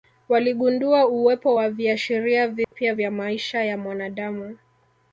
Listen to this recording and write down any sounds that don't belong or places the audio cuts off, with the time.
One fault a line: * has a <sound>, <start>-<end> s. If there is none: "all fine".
* has a dropout, 2.6-2.7 s